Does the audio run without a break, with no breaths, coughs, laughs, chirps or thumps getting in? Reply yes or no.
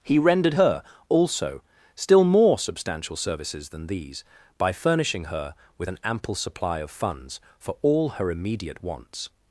yes